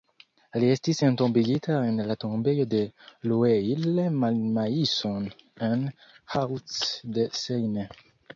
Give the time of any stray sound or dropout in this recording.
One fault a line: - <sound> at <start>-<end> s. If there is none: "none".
none